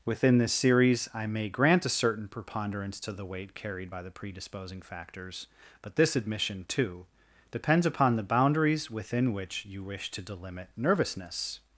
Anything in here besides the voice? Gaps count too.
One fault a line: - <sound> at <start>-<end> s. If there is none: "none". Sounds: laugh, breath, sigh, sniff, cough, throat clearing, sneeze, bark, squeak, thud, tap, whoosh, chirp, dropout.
none